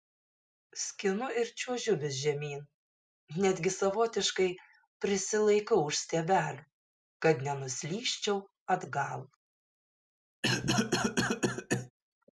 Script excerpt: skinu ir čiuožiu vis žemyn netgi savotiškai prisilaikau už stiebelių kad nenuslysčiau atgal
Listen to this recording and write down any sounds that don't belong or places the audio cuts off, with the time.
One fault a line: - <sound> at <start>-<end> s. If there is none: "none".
- cough at 10.4-11.9 s